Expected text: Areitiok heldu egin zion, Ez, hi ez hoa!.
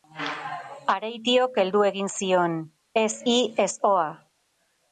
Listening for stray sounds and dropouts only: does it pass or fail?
pass